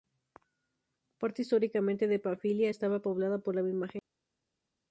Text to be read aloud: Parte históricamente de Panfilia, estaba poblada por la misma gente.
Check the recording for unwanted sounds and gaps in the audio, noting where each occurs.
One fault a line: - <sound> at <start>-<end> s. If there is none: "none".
none